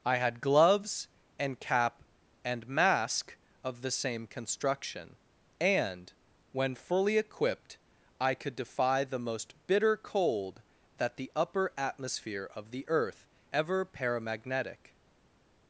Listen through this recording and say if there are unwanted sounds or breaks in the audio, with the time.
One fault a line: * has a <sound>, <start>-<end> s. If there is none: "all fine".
all fine